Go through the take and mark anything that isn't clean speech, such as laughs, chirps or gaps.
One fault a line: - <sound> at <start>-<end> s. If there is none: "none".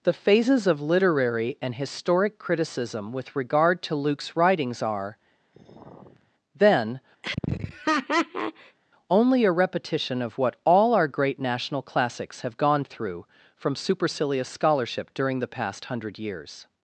- sigh at 5.5-6.3 s
- laugh at 7.2-8.8 s